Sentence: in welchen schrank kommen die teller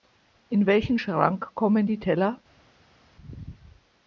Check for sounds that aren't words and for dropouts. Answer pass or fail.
pass